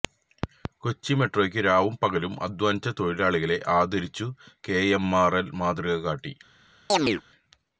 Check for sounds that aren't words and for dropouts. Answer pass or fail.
fail